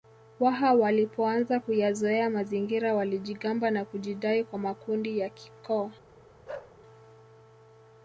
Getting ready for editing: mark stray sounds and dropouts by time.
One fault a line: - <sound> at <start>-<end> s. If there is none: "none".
- bark at 6.5-6.8 s